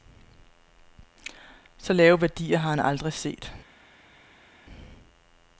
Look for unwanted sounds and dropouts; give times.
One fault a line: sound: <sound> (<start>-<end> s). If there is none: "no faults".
no faults